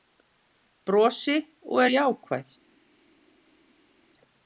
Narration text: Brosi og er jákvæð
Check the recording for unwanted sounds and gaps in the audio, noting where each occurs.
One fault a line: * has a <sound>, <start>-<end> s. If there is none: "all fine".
all fine